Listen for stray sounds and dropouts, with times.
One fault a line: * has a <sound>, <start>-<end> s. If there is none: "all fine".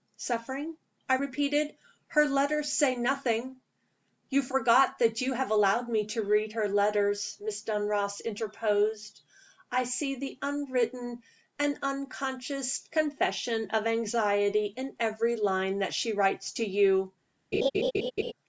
* has a laugh, 17.5-18.3 s